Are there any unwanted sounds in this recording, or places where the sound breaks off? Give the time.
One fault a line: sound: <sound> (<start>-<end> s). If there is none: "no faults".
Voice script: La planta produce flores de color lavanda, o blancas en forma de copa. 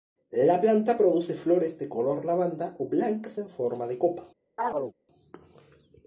sound: chirp (4.6-4.9 s)